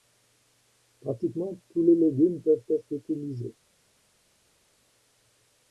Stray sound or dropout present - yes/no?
no